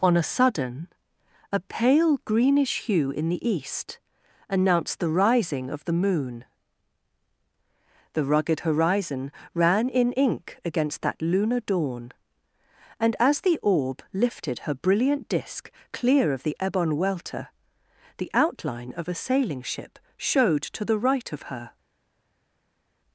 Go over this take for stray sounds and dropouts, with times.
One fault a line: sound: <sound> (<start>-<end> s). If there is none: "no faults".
no faults